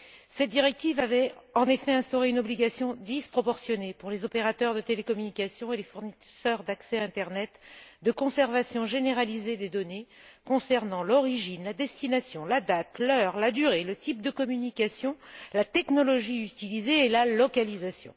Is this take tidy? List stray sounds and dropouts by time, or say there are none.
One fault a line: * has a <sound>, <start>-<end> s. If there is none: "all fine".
all fine